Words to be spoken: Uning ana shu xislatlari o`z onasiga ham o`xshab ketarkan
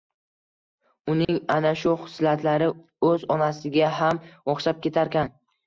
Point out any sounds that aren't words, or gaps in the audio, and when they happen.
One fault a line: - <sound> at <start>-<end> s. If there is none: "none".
- dropout at 1.2-1.3 s